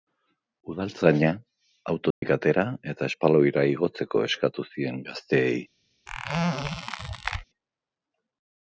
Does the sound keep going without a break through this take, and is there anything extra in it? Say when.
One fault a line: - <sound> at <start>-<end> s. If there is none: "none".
- dropout at 2.1-2.2 s
- squeak at 6.1-7.4 s